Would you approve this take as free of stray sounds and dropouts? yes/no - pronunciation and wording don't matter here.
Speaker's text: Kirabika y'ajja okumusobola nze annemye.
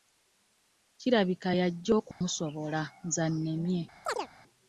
no